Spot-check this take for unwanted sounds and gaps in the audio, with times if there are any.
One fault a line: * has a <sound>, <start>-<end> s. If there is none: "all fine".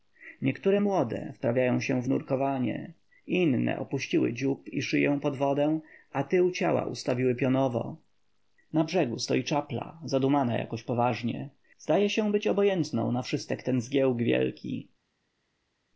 all fine